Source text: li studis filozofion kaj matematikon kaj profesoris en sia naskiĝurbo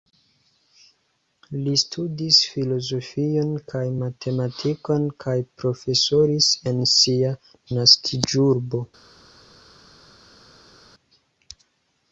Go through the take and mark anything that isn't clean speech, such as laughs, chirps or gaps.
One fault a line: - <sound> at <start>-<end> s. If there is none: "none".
none